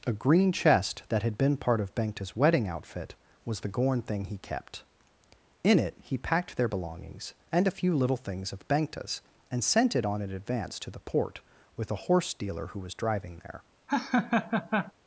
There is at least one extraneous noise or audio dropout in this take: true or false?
true